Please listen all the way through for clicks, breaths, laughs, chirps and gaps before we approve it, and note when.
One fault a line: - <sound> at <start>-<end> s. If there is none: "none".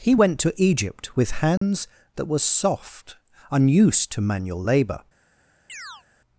- dropout at 1.6-1.6 s
- chirp at 5.7-6.0 s